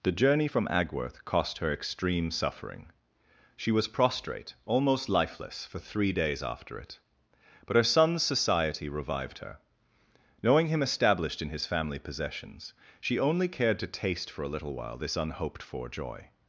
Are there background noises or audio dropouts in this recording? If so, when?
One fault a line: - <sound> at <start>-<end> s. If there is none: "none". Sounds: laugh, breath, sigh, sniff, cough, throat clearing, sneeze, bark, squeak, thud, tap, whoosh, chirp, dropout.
none